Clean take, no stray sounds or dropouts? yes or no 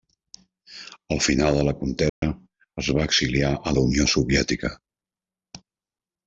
no